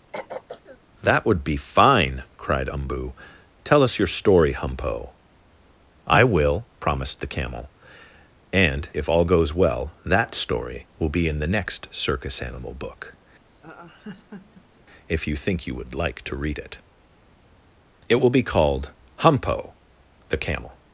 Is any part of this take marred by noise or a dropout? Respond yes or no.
yes